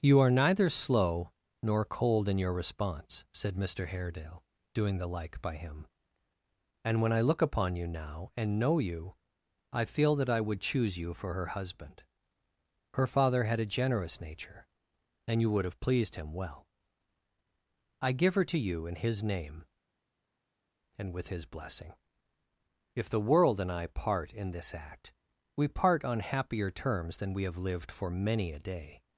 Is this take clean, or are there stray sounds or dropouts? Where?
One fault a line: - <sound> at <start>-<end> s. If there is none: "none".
none